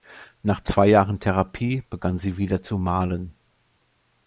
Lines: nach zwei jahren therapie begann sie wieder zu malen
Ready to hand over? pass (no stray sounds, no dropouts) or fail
pass